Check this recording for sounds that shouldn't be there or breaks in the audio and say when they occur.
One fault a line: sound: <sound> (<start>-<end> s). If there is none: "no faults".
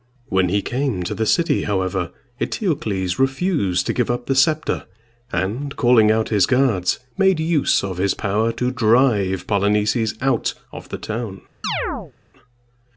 sound: chirp (11.6-12.1 s)